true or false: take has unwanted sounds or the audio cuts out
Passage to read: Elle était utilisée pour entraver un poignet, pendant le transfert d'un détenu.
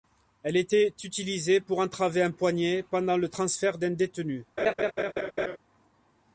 true